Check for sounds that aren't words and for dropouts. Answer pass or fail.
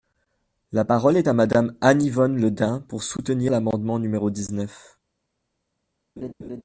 fail